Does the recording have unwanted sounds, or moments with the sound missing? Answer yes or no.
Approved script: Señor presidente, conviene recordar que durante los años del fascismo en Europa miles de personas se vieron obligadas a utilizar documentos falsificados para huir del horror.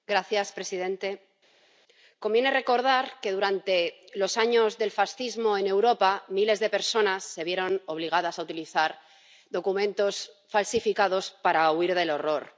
no